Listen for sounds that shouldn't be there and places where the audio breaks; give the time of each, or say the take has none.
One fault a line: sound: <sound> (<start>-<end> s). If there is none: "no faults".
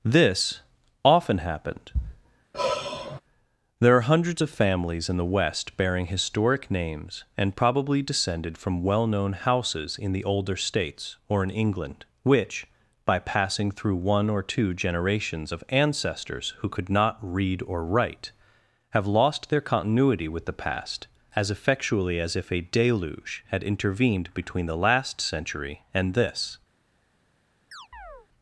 sound: sigh (2.5-3.2 s)
sound: chirp (27.7-28.3 s)